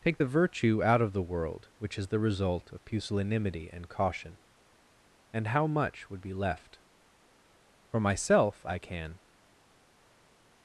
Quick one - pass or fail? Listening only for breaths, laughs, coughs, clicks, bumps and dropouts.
pass